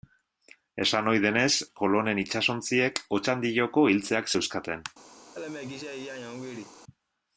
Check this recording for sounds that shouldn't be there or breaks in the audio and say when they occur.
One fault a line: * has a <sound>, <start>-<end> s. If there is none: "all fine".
* has a laugh, 5.3-6.8 s